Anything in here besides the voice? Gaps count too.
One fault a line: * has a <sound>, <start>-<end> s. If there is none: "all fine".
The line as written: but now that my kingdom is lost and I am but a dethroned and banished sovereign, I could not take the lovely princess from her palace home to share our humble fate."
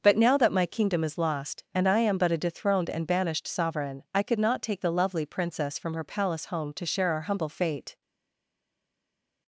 all fine